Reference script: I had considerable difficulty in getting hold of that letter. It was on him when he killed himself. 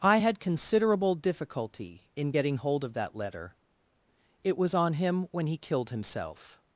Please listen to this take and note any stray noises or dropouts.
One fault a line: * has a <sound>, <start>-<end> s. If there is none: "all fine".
all fine